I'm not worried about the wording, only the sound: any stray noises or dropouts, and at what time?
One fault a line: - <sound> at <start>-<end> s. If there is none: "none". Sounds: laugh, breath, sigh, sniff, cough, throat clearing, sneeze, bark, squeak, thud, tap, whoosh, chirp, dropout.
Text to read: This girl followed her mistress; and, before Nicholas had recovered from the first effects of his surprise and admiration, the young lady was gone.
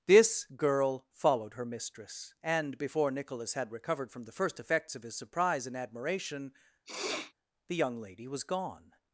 - sniff at 6.9-7.3 s